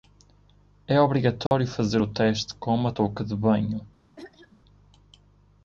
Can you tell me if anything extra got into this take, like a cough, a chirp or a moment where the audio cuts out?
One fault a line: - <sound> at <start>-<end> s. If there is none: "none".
- dropout at 1.5-1.5 s
- throat clearing at 4.2-4.6 s